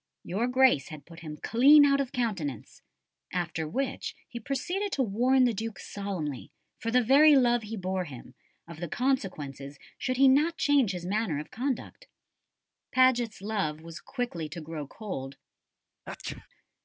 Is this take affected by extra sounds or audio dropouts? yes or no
yes